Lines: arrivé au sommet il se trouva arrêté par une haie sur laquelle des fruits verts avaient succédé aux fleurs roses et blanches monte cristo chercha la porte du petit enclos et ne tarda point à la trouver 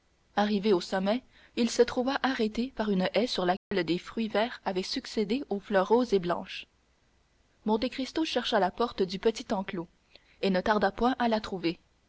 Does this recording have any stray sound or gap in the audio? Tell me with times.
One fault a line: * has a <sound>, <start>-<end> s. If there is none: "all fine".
* has a dropout, 3.6-3.7 s